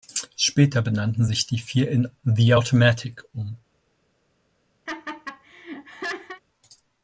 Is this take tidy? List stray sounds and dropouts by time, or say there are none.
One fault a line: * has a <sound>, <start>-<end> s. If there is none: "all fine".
* has a laugh, 4.9-6.4 s